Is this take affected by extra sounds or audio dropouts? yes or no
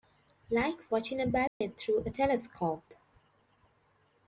yes